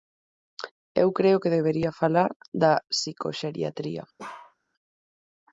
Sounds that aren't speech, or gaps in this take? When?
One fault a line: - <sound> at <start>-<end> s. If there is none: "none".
- bark at 4.2-4.6 s